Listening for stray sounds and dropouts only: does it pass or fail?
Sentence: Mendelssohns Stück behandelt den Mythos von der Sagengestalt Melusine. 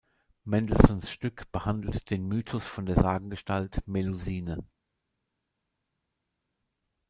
pass